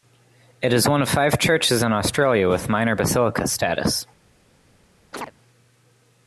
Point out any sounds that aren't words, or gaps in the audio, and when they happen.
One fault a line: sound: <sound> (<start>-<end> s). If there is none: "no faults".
sound: chirp (5.1-5.3 s)